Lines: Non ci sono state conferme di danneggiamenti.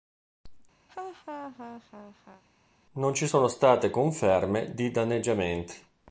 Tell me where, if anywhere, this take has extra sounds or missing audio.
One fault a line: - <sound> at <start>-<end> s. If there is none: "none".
- laugh at 0.9-2.4 s